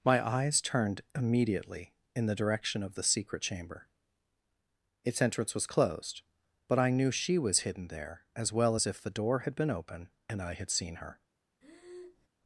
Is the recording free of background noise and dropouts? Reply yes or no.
no